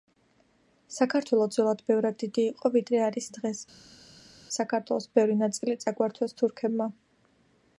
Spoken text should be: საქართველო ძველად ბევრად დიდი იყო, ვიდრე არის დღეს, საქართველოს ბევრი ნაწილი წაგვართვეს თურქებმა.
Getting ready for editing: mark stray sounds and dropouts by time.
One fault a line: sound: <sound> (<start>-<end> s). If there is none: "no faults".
no faults